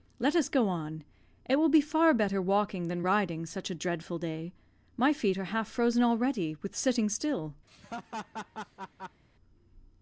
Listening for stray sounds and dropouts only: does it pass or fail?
fail